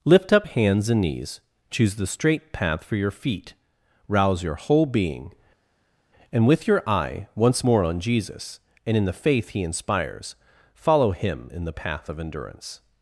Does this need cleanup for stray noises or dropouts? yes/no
no